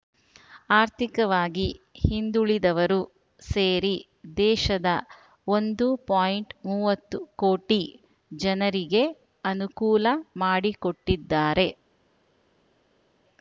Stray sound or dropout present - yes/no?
no